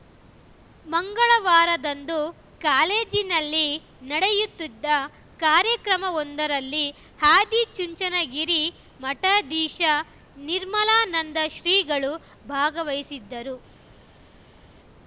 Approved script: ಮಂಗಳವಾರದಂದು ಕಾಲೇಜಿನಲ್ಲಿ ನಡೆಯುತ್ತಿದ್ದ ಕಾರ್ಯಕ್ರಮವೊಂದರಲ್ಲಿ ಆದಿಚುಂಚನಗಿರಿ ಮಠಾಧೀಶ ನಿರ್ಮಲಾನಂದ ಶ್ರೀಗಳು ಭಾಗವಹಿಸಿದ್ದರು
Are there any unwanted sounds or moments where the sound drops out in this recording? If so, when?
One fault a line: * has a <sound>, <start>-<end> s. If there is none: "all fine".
all fine